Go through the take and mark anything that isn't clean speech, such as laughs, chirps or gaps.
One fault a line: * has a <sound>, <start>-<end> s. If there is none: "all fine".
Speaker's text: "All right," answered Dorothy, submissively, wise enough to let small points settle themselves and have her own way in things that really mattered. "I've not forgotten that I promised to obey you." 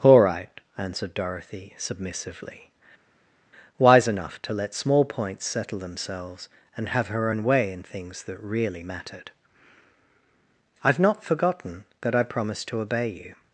all fine